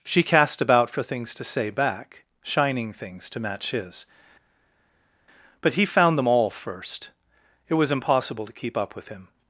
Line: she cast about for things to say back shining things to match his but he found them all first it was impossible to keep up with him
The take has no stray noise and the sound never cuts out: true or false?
true